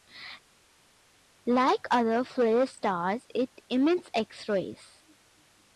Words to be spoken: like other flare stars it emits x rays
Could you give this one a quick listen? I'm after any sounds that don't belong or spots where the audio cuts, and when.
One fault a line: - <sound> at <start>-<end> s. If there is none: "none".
none